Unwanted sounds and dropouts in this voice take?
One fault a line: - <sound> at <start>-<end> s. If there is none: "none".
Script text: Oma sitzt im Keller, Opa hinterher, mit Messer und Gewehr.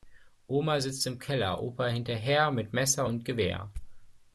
none